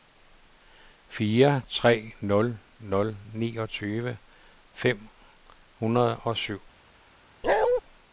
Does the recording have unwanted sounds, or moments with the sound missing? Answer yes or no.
yes